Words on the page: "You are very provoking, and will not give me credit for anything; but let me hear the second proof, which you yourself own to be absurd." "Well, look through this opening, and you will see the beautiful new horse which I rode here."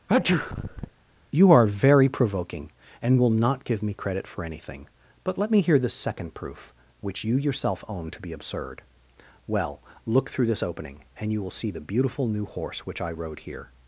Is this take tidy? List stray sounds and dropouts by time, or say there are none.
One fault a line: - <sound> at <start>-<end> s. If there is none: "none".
- sneeze at 0.1-0.9 s